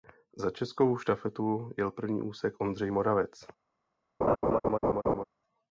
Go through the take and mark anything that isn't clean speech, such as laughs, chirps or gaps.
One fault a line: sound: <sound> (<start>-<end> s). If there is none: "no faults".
sound: laugh (4.2-5.2 s)